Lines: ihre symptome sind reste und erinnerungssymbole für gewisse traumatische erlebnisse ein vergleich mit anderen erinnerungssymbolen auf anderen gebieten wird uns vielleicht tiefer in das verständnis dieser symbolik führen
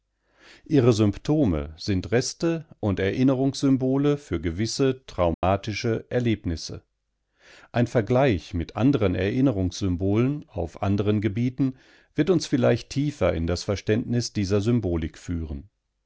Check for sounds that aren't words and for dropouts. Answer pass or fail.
fail